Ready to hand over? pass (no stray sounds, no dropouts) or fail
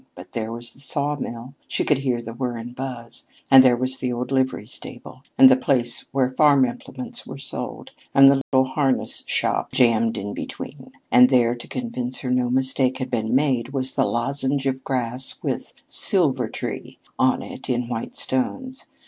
fail